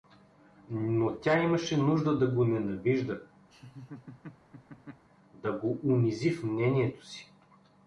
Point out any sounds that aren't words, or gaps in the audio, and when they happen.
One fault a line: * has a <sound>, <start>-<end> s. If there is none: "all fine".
* has a laugh, 3.5-5.1 s